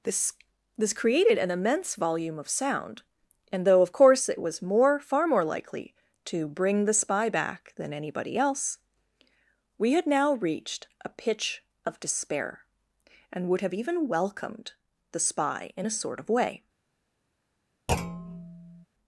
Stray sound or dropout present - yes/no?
yes